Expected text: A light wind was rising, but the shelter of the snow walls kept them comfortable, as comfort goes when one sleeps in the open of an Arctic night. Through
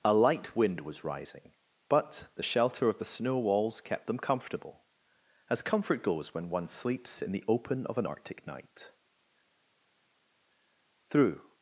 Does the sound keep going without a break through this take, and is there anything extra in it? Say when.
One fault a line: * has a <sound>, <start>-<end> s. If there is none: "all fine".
all fine